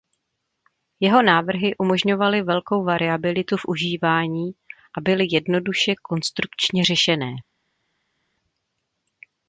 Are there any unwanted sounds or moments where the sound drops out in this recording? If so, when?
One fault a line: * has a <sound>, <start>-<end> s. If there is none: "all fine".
all fine